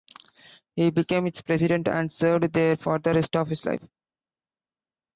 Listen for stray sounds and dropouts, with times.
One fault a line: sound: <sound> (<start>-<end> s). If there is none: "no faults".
no faults